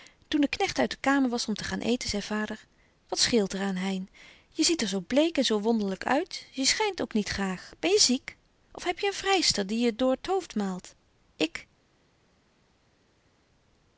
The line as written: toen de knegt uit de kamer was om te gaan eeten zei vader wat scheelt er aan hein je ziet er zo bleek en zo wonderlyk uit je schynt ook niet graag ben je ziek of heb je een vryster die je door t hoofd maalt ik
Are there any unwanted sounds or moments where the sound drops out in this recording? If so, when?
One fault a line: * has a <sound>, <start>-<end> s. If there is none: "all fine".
all fine